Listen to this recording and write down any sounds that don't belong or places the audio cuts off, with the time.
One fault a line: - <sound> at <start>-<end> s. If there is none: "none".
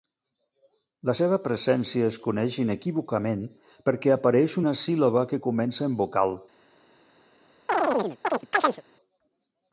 - chirp at 7.7-8.8 s